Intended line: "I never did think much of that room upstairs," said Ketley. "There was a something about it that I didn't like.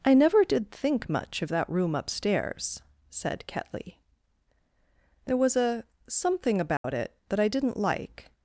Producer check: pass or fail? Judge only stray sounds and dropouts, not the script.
fail